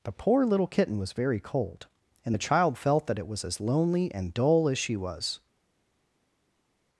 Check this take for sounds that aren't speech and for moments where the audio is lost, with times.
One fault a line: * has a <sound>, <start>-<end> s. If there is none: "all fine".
all fine